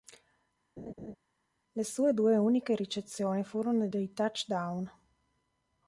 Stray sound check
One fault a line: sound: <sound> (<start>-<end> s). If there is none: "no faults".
sound: laugh (0.8-1.2 s)